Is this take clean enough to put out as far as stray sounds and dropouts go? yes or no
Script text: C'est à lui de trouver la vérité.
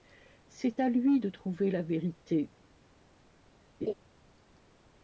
no